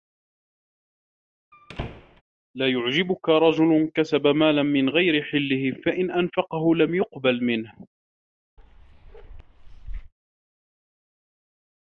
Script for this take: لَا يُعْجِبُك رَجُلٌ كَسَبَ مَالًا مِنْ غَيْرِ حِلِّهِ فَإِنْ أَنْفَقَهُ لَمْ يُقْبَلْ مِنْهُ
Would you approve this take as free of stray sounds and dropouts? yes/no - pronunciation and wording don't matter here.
no